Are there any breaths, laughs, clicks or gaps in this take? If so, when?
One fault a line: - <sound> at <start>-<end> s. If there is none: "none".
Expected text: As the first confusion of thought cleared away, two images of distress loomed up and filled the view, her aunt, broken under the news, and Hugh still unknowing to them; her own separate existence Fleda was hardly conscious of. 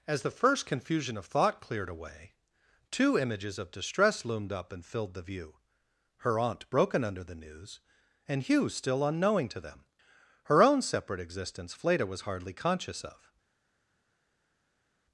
none